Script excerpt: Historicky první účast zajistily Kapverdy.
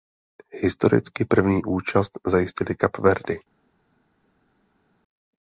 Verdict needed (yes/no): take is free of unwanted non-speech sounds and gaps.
yes